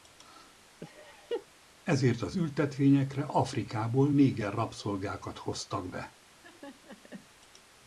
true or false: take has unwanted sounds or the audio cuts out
true